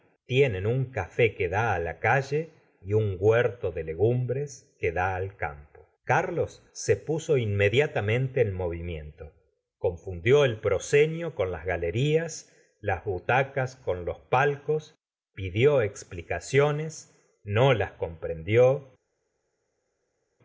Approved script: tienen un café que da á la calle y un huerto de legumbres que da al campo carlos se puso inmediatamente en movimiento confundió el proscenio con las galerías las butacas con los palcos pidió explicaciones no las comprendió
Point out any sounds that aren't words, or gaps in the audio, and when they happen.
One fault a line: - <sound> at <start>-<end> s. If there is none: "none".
none